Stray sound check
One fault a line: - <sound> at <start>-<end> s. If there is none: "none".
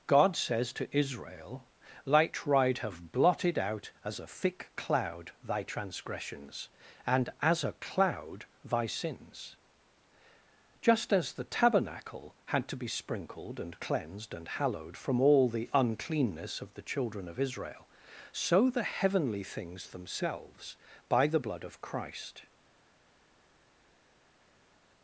none